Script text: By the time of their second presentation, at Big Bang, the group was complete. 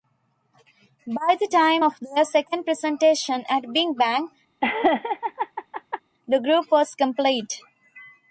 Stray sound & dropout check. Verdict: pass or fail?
fail